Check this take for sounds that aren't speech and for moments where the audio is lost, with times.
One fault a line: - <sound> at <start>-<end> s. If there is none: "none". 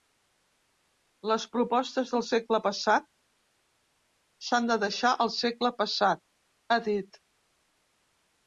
none